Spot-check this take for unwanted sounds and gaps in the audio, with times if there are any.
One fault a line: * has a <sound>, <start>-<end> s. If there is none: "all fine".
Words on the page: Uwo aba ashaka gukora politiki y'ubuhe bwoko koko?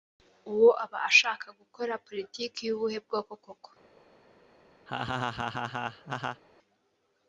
* has a laugh, 4.9-6.4 s